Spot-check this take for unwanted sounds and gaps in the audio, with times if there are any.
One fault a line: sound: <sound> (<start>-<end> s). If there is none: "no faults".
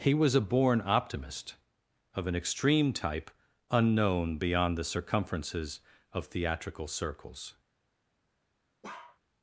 sound: bark (8.8-9.2 s)